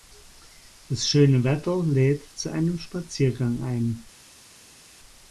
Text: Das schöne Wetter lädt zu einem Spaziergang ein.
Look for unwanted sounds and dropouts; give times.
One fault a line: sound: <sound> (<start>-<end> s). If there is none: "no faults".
no faults